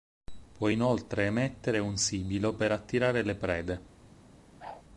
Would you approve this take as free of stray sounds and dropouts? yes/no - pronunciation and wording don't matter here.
no